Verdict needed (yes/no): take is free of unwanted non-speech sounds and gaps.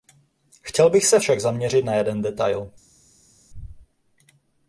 yes